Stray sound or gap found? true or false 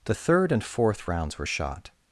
false